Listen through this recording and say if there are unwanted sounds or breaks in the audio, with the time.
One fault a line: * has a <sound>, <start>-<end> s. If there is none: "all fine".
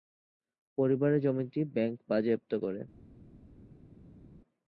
all fine